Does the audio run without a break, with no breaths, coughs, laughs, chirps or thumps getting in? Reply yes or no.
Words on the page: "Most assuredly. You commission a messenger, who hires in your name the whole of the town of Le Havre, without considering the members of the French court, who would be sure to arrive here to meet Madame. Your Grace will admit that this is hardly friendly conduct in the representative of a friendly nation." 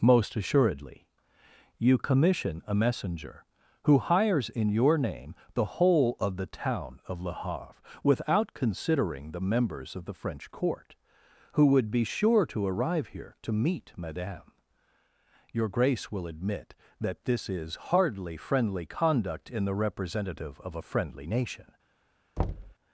no